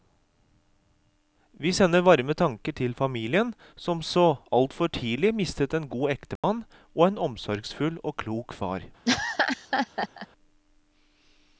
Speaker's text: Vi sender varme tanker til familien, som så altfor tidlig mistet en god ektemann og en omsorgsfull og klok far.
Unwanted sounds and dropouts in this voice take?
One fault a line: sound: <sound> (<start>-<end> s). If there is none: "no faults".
sound: dropout (6.4-6.4 s)
sound: laugh (9.0-10.3 s)